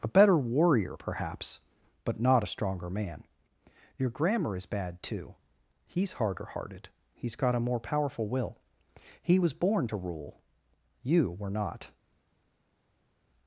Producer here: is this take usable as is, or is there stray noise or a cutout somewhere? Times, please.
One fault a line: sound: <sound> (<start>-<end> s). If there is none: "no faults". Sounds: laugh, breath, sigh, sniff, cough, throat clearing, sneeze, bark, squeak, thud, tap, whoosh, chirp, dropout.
no faults